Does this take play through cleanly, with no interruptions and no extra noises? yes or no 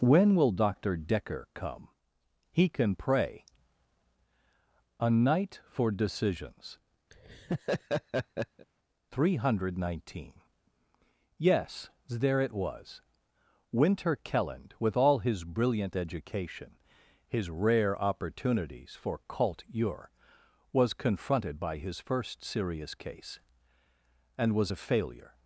no